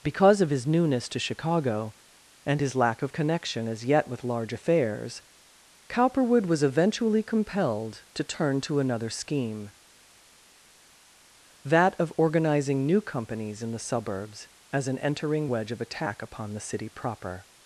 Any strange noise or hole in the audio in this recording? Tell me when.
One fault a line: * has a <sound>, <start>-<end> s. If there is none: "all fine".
all fine